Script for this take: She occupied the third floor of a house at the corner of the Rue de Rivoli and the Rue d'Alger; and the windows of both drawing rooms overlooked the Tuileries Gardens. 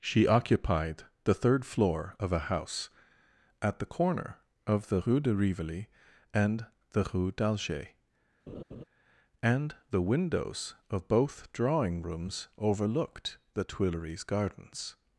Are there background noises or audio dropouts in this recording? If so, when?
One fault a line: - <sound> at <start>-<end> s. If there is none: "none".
- laugh at 8.5-8.8 s